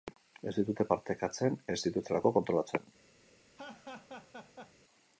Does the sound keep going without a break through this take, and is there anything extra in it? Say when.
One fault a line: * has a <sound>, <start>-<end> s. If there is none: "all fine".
* has a laugh, 3.5-4.7 s